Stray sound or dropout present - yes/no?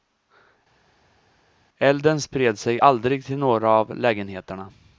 no